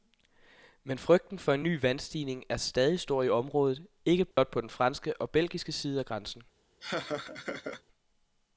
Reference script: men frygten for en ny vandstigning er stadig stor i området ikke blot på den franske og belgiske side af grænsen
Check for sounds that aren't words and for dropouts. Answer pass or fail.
fail